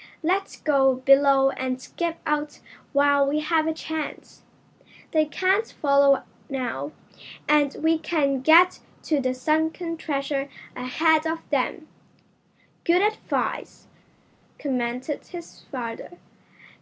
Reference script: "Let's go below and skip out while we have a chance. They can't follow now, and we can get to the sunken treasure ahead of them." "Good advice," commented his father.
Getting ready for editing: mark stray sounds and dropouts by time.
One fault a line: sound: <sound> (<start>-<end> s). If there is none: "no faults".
no faults